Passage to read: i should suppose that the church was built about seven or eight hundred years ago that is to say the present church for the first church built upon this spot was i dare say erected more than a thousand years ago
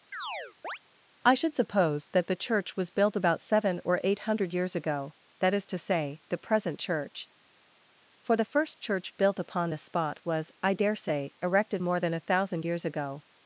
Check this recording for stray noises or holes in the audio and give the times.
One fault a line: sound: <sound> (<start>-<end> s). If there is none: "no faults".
sound: chirp (0.1-0.8 s)